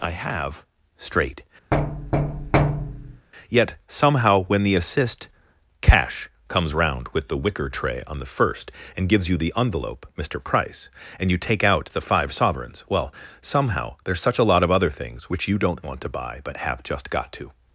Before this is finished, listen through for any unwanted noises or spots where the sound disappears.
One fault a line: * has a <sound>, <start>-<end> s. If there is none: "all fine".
* has a thud, 1.7-3.3 s